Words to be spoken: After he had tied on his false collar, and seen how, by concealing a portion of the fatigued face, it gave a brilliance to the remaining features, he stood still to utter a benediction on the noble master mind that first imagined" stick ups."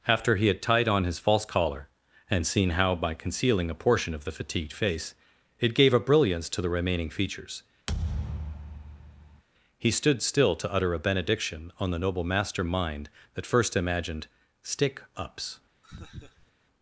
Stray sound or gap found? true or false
true